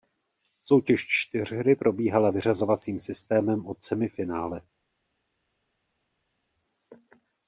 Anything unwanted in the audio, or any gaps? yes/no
no